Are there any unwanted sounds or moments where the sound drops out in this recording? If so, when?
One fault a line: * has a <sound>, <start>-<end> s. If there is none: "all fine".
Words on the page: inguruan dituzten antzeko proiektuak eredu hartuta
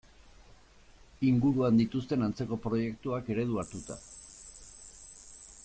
all fine